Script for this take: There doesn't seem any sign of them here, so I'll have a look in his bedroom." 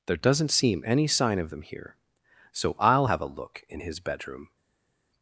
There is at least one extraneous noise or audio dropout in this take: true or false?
false